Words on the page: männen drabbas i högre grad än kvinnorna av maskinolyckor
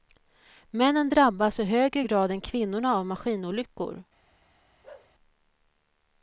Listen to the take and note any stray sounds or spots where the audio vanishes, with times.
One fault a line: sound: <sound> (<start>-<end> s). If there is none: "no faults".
sound: bark (4.8-5.1 s)